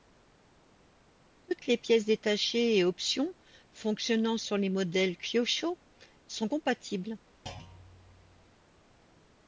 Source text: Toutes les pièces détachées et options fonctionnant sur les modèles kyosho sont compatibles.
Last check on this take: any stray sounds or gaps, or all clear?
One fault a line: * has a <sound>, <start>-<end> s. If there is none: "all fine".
* has a thud, 7.5-8.6 s